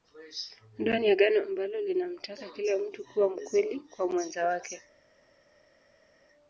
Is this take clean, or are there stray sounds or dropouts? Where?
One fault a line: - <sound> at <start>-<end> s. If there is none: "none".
none